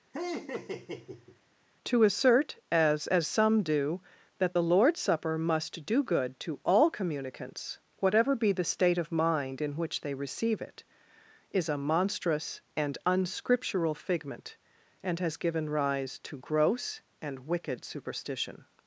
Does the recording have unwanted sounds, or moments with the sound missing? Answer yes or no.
yes